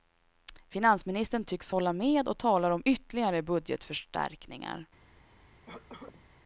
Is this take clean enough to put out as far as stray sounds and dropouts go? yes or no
no